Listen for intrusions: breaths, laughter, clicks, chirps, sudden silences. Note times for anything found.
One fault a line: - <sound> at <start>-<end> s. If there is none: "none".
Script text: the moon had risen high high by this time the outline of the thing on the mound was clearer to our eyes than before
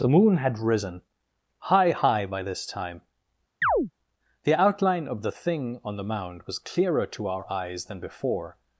- chirp at 3.6-3.9 s